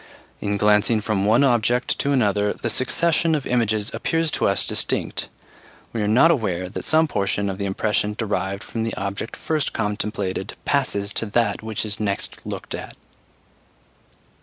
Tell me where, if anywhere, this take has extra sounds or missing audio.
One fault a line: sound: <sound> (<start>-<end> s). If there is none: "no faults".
no faults